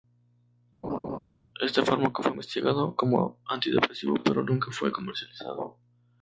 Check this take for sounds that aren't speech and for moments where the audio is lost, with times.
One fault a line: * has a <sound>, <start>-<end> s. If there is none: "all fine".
* has a laugh, 0.8-1.2 s